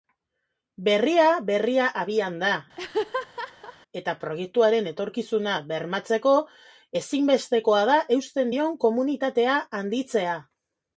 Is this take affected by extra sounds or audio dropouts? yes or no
yes